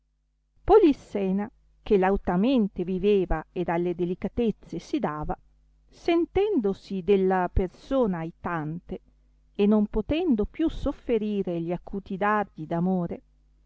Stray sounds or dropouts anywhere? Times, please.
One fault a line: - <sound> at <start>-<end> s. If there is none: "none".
none